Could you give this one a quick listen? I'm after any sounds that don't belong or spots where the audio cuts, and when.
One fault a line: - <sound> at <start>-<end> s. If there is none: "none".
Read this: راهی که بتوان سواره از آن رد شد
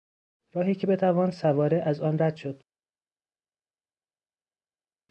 none